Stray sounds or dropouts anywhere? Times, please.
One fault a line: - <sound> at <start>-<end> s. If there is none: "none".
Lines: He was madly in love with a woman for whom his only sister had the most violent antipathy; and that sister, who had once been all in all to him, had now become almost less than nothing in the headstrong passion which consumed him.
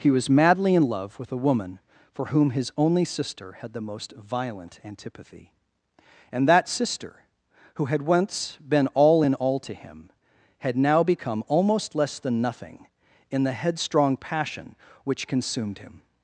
none